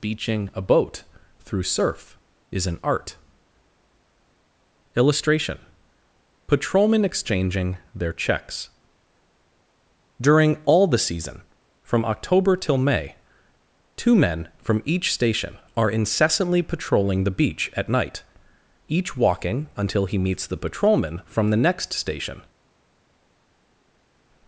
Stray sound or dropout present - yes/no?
no